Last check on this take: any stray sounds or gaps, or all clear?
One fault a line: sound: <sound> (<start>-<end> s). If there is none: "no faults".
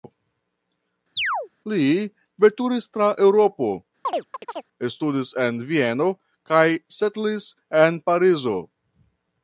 sound: chirp (1.2-1.5 s)
sound: chirp (4.0-4.7 s)